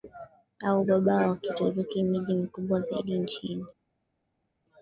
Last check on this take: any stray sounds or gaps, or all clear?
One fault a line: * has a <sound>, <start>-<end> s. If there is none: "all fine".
all fine